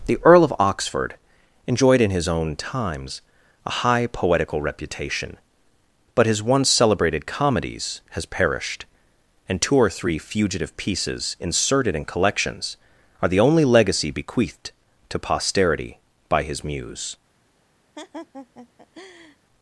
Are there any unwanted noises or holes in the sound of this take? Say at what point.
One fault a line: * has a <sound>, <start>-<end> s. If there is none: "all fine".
* has a laugh, 18.0-19.4 s